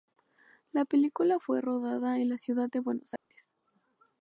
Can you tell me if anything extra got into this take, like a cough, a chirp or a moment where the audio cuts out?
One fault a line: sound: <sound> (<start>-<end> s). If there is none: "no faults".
sound: dropout (3.2-3.3 s)